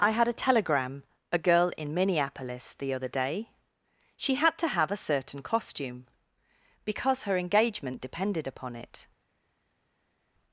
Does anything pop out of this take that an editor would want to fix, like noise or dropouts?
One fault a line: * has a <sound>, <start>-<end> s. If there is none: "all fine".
all fine